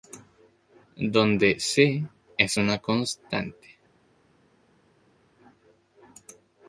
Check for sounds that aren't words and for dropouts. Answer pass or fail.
pass